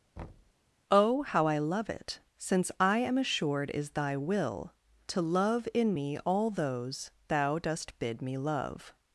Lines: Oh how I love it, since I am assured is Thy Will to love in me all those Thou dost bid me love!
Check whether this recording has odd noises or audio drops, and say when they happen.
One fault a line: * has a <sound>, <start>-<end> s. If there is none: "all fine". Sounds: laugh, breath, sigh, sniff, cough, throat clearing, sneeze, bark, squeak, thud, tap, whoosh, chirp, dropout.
* has a thud, 0.2-0.5 s